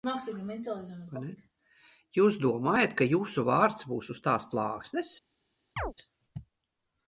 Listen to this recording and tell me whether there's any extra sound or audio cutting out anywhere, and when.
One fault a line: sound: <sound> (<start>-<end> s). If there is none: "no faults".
sound: chirp (5.8-5.9 s)